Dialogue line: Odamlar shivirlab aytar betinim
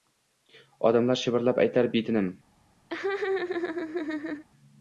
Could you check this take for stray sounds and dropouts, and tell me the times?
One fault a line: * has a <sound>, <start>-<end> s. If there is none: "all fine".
* has a laugh, 2.9-4.5 s